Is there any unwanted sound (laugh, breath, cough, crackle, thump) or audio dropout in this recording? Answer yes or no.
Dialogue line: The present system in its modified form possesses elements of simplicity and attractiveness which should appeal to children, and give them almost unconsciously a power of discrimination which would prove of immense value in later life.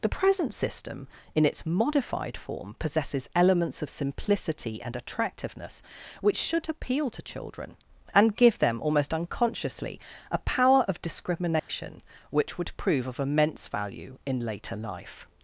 yes